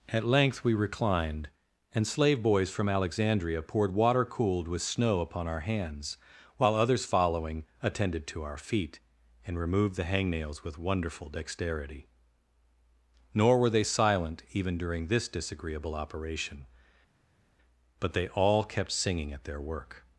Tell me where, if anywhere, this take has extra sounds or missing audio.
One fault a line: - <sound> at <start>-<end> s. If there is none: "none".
none